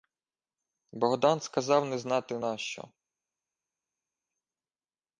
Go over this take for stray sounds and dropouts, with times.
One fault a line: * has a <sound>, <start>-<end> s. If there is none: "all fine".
all fine